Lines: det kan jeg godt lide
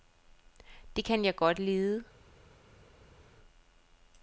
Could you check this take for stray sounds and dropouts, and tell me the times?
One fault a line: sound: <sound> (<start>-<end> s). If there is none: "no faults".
no faults